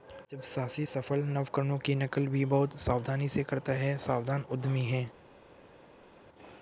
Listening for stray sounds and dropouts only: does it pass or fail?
pass